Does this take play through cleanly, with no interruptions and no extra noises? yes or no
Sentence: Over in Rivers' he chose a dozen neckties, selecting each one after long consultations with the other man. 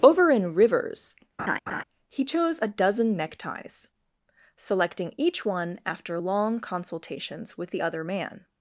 no